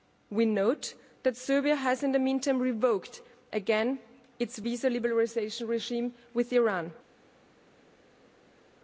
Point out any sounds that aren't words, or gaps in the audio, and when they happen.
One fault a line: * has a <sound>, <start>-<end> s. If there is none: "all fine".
all fine